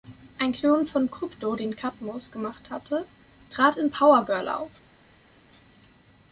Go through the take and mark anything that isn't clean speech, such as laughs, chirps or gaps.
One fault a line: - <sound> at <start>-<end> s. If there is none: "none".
none